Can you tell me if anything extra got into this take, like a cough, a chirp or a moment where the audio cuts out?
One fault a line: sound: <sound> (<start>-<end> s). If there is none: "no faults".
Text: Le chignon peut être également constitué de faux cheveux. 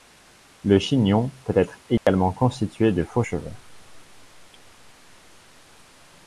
sound: dropout (2.0-2.1 s)